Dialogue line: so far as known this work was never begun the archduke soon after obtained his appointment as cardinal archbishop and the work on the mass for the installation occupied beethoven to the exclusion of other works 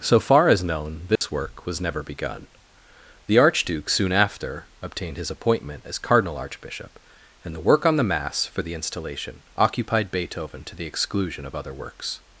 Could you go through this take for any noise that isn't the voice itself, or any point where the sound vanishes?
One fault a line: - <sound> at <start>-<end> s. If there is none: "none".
- dropout at 1.2-1.2 s